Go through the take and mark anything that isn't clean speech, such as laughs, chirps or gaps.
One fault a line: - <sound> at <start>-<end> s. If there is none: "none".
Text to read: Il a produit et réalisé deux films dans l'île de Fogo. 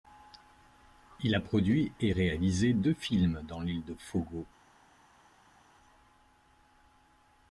none